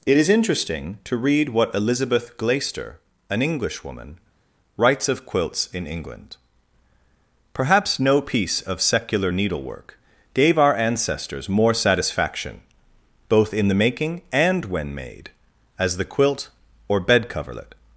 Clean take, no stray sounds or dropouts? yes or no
yes